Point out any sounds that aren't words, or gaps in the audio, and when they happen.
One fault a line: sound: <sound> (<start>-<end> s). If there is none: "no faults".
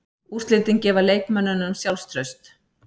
no faults